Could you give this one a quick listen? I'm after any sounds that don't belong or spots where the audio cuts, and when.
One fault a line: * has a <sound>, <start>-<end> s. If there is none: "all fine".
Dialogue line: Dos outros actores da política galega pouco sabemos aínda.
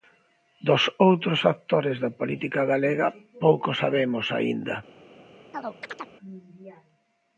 * has a chirp, 5.5-6.2 s